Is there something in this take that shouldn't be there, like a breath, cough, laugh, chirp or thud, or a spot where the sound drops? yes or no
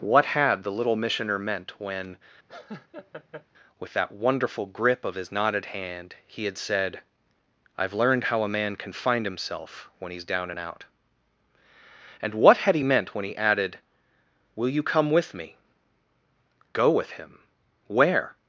yes